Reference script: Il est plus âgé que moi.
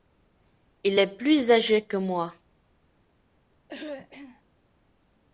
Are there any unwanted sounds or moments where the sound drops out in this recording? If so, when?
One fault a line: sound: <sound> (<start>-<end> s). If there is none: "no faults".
sound: throat clearing (3.7-4.4 s)